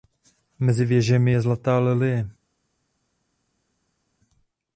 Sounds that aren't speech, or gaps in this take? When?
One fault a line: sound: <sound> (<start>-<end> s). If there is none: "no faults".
no faults